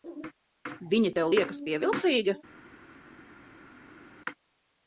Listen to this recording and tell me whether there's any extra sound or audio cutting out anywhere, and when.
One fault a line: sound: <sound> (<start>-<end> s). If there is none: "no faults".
no faults